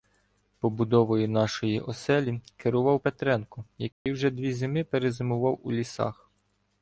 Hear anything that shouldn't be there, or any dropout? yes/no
yes